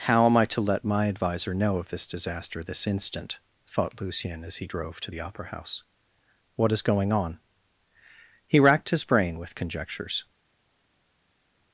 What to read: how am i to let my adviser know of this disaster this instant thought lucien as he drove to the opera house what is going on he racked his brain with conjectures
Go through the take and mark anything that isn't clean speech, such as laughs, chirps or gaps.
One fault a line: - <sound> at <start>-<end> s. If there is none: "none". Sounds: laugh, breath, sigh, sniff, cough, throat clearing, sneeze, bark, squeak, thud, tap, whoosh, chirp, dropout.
none